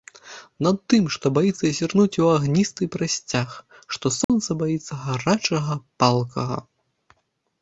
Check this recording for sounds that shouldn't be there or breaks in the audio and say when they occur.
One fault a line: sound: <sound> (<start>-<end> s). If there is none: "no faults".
sound: dropout (4.2-4.3 s)